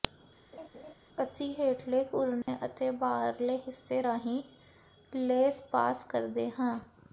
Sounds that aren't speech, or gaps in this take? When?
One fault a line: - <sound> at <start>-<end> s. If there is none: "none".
- laugh at 0.5-0.9 s
- dropout at 2.4-2.5 s